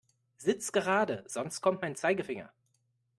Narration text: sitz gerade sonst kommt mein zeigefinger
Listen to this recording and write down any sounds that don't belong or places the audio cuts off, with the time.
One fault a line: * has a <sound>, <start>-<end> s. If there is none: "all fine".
all fine